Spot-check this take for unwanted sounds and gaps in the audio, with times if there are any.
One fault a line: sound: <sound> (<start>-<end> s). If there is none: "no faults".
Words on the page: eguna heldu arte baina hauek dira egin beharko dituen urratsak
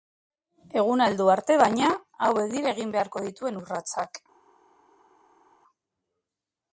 no faults